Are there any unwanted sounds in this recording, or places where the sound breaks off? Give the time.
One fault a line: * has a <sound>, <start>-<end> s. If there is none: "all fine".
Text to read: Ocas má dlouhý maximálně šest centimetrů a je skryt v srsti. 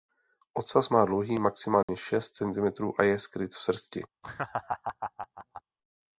* has a dropout, 1.8-1.9 s
* has a laugh, 4.2-5.6 s